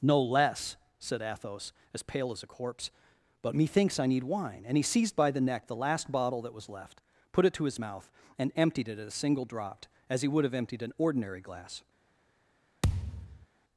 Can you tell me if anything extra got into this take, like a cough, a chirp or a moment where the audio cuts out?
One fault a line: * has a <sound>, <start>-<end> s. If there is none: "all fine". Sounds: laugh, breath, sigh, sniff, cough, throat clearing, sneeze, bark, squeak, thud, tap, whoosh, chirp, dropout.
* has a thud, 12.8-13.5 s